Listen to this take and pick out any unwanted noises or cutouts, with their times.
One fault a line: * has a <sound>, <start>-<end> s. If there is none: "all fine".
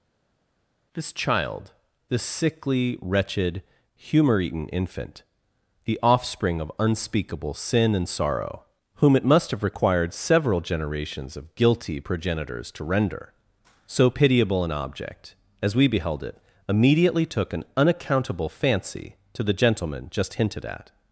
all fine